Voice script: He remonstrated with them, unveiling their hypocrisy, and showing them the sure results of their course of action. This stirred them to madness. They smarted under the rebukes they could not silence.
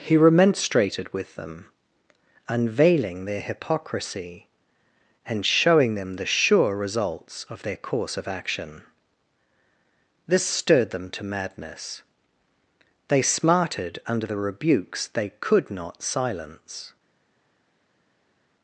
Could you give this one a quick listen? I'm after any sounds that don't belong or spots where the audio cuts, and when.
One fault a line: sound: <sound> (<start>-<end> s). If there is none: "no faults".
no faults